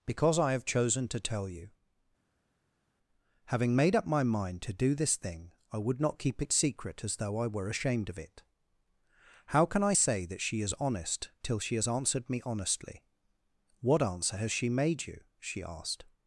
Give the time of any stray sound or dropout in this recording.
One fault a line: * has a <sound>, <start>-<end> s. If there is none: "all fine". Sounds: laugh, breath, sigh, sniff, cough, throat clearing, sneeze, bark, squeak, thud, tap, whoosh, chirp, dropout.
all fine